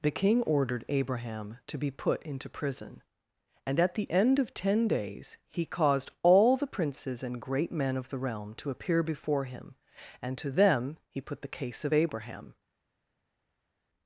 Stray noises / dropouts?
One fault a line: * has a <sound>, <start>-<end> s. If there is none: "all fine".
all fine